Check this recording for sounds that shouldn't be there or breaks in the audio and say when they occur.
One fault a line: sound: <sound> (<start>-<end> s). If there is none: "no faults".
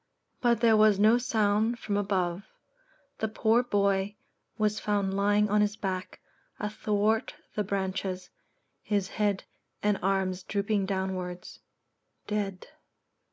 no faults